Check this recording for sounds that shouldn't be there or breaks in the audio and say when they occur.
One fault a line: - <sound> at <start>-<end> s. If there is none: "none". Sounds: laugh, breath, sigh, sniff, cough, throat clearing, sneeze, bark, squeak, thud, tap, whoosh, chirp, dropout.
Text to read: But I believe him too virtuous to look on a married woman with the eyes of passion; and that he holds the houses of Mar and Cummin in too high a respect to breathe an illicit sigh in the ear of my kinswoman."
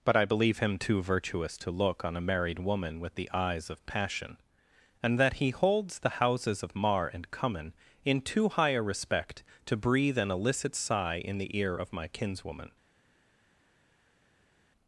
none